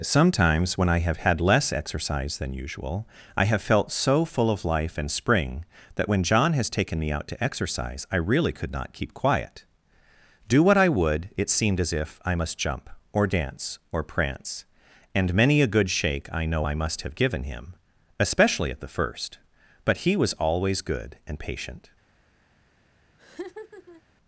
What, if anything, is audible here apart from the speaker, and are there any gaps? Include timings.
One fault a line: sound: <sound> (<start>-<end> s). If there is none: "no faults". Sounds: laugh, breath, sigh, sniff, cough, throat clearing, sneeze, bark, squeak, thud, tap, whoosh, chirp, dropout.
sound: laugh (23.2-24.0 s)